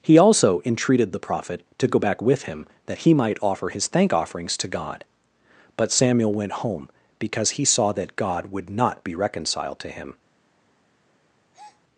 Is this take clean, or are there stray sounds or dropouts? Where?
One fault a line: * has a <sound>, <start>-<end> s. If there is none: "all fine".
* has a breath, 11.5-11.8 s